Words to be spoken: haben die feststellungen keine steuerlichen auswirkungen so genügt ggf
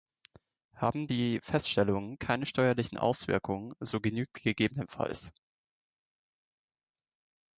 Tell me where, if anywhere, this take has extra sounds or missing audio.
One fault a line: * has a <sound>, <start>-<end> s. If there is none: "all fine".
all fine